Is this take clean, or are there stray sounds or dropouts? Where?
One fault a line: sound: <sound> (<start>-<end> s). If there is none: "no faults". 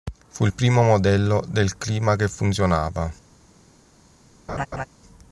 sound: laugh (4.5-4.9 s)